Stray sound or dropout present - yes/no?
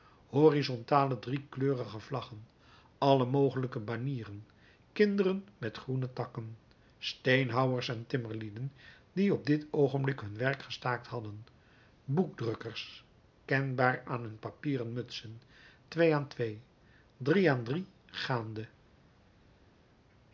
no